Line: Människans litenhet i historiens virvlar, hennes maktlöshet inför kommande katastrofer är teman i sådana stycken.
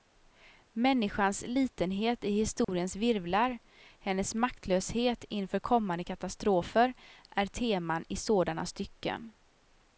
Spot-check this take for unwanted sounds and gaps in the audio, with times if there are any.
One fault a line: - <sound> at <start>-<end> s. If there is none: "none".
- dropout at 2.6-2.7 s